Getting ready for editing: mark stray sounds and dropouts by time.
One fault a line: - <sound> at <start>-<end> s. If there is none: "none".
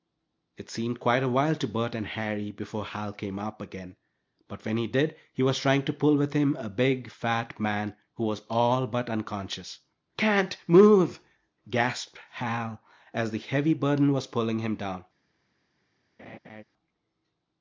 - laugh at 16.2-16.6 s